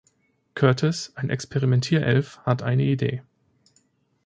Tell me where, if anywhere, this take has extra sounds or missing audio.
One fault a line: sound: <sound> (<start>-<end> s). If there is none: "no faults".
no faults